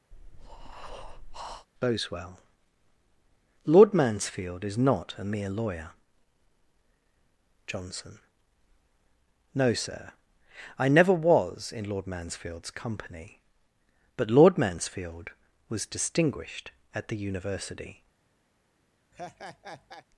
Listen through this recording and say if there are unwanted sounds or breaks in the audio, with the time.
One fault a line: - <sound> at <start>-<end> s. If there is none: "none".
- breath at 0.1-1.7 s
- laugh at 19.1-20.1 s